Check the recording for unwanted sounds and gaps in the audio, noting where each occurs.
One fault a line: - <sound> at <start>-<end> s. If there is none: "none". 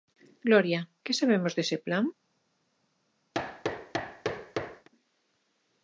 - thud at 3.3-4.9 s